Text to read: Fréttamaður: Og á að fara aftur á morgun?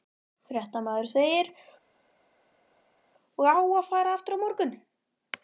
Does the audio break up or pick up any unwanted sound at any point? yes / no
no